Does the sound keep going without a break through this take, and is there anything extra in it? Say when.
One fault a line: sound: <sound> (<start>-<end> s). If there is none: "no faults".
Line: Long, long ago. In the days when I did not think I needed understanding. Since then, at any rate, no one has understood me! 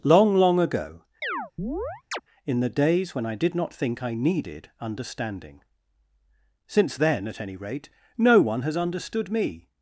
sound: chirp (1.2-2.2 s)